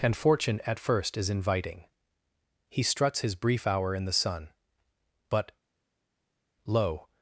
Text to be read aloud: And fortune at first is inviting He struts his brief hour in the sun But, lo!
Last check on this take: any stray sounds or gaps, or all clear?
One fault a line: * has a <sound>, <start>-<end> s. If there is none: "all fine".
all fine